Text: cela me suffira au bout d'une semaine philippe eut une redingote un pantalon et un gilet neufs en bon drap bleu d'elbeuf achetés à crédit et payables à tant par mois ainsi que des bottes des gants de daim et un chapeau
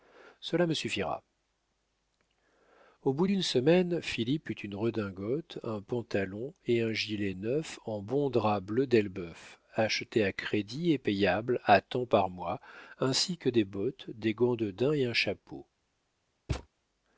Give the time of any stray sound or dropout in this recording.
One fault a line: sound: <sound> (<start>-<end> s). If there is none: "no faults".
sound: thud (16.5-16.7 s)